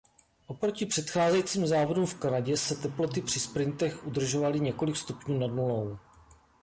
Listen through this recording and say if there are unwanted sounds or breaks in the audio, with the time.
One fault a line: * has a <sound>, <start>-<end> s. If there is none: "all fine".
all fine